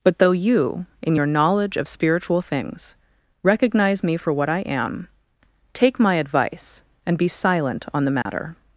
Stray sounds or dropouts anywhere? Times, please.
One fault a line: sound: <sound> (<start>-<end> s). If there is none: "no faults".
sound: dropout (8.2-8.3 s)